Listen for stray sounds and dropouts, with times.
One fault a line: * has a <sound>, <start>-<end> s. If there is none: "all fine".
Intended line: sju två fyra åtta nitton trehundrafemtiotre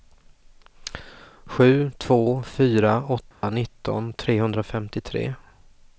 * has a dropout, 3.3-3.4 s